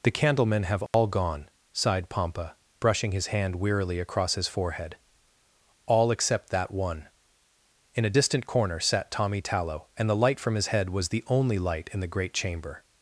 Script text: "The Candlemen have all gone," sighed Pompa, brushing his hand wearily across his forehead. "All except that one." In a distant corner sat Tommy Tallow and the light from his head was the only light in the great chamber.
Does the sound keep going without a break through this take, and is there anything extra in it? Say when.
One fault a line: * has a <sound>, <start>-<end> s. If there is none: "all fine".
* has a dropout, 0.9-0.9 s